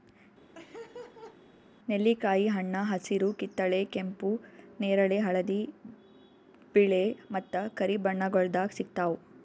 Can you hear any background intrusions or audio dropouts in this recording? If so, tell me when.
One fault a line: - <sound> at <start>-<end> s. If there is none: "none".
- laugh at 0.5-1.4 s